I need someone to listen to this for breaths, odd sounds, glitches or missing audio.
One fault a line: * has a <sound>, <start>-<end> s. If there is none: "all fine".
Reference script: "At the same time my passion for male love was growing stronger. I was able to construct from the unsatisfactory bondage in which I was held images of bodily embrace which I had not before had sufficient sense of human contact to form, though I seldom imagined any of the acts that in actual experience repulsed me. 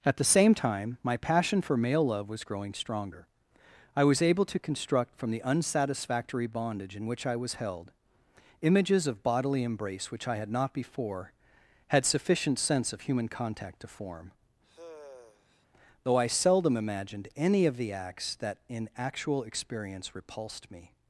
* has a sigh, 14.6-15.7 s